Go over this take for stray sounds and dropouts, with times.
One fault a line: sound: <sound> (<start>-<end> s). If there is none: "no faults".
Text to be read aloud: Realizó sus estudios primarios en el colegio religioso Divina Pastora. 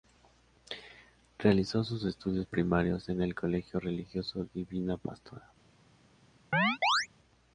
sound: chirp (6.5-7.1 s)